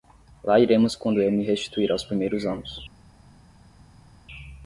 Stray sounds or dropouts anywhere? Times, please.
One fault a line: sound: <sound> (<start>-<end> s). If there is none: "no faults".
no faults